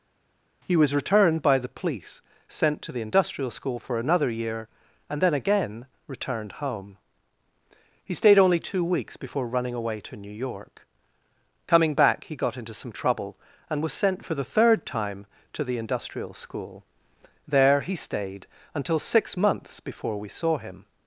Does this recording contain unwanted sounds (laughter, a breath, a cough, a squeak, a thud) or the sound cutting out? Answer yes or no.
no